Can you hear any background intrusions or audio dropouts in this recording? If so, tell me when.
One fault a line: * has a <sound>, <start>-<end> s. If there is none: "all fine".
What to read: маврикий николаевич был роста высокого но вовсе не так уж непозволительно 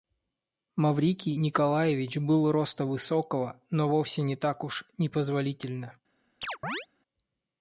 * has a chirp, 6.4-6.9 s